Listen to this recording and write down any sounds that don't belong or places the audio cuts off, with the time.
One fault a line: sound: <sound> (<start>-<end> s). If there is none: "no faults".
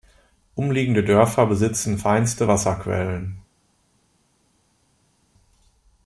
no faults